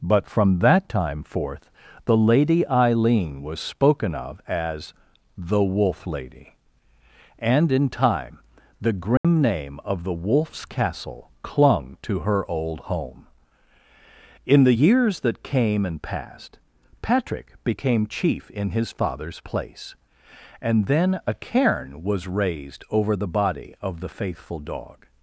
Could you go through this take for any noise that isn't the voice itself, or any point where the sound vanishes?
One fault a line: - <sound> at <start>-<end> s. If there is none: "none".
- dropout at 9.2-9.2 s